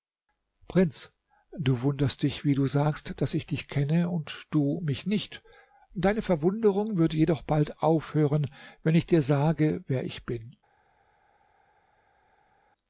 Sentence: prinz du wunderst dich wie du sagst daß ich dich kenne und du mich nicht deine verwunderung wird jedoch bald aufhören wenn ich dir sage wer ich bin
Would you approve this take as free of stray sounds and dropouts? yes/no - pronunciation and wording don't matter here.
yes